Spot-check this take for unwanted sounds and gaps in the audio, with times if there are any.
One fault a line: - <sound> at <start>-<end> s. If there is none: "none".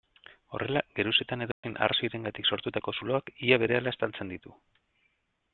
- dropout at 1.5-1.6 s